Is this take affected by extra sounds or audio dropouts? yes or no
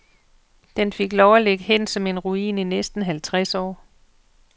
no